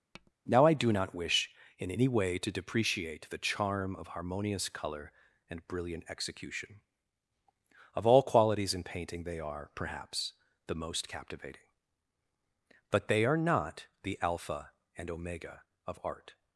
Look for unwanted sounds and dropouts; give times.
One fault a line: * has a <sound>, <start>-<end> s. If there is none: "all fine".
* has a tap, 0.1-0.3 s